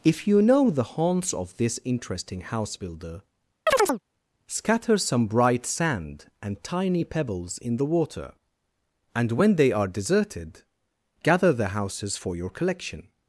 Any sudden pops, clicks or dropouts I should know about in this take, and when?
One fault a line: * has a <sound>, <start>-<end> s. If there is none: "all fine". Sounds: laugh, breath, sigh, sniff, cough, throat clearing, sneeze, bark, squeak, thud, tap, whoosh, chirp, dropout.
* has a chirp, 3.7-4.0 s